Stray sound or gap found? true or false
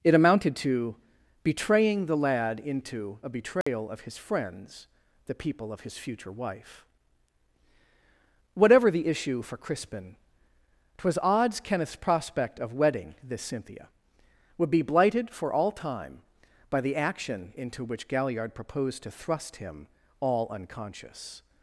true